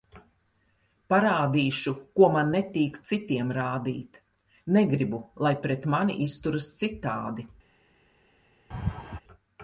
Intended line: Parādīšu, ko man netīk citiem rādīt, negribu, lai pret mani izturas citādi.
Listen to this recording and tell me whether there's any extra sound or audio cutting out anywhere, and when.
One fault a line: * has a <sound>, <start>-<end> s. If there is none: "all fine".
* has a laugh, 8.7-9.2 s